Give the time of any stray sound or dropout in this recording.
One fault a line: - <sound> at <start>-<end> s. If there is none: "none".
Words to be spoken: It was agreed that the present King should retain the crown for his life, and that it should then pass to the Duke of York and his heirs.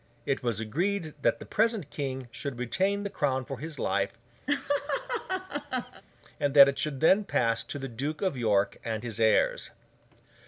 - laugh at 4.5-6.0 s